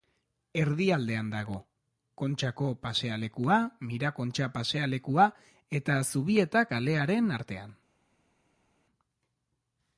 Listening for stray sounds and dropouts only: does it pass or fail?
pass